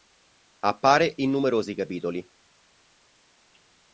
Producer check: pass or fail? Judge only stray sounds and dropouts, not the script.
pass